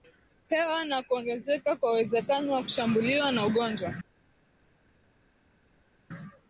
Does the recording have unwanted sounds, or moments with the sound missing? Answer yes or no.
no